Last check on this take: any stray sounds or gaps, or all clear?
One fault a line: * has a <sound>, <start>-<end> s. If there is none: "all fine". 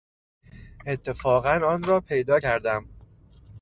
all fine